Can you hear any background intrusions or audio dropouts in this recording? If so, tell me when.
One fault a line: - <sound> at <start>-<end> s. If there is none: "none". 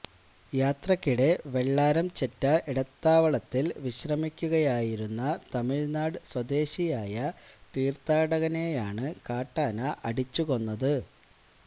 none